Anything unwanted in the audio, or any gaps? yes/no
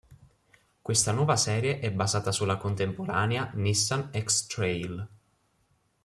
no